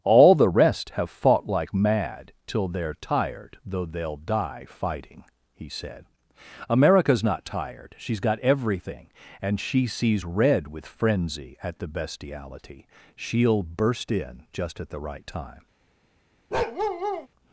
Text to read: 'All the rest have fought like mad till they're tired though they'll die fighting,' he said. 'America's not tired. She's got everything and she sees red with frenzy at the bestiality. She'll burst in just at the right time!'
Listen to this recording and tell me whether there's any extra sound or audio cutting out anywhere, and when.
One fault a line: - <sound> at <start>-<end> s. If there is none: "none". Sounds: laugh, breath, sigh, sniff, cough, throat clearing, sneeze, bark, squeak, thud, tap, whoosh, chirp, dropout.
- bark at 16.5-17.3 s